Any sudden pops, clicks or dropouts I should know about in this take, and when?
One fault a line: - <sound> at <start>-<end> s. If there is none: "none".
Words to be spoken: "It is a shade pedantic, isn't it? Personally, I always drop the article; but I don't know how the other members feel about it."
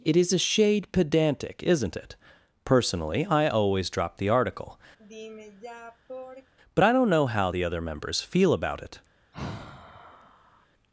- sigh at 5.0-6.5 s
- sigh at 9.3-10.7 s